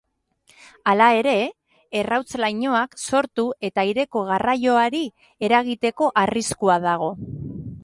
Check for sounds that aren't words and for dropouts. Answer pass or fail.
pass